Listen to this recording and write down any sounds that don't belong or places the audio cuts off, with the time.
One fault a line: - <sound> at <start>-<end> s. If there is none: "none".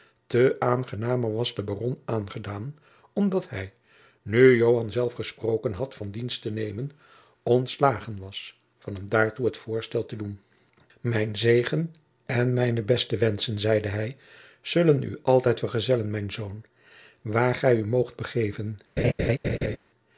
- laugh at 19.0-19.8 s